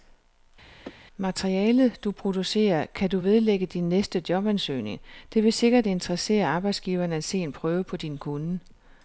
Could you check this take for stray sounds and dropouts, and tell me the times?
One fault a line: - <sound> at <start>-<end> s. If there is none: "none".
- sneeze at 0.8-1.0 s